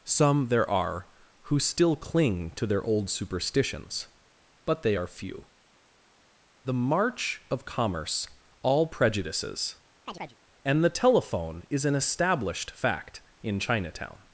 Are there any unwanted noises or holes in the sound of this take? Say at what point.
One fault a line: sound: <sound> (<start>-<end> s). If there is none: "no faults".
sound: chirp (10.1-10.4 s)